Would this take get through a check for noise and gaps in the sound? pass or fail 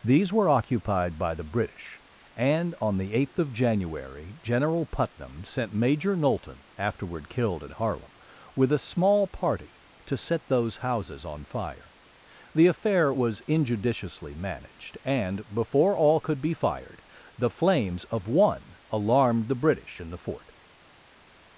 pass